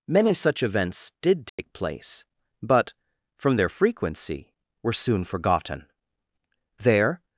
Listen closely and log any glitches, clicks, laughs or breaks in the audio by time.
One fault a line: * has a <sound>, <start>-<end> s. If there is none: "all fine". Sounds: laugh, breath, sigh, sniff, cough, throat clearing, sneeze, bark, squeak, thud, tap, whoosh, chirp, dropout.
* has a dropout, 1.5-1.6 s